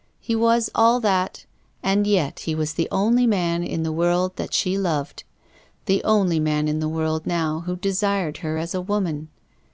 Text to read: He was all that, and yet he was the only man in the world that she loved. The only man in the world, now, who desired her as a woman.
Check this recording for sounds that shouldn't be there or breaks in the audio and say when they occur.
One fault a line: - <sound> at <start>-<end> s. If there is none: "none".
none